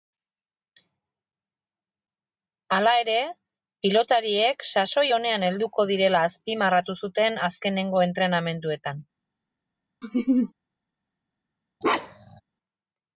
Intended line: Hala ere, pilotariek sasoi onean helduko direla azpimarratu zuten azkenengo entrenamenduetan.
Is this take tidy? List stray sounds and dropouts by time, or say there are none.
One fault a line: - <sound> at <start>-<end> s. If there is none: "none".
- laugh at 10.0-10.5 s
- bark at 11.8-12.4 s